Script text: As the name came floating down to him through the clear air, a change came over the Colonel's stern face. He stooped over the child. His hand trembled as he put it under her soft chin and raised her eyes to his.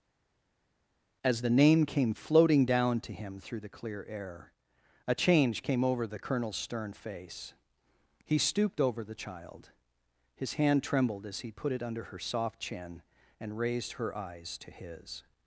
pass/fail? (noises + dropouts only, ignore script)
pass